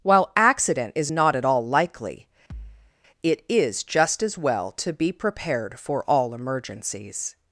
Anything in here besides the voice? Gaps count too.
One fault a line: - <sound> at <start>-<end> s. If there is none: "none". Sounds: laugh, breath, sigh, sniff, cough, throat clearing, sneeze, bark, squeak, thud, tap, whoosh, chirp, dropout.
- thud at 2.5-2.9 s